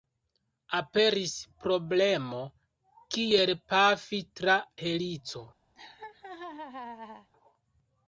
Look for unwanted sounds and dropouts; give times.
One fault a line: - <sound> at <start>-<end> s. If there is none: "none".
- laugh at 5.8-7.3 s